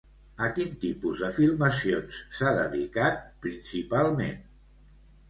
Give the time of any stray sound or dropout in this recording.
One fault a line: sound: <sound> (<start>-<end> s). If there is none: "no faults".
no faults